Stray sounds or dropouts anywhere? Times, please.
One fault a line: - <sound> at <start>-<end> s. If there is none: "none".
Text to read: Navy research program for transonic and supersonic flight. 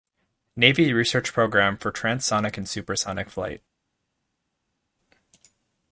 none